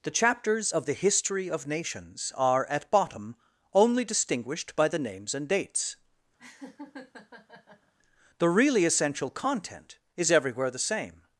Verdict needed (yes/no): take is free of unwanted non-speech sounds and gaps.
no